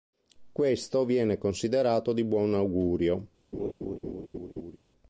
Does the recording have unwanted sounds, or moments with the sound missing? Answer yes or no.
yes